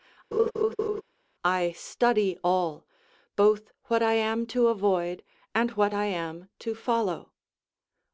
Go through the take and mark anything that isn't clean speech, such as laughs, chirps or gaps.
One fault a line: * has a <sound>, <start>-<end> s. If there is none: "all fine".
* has a laugh, 0.3-1.0 s